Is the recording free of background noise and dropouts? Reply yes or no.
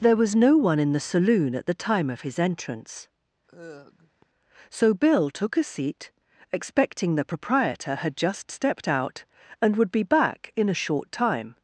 no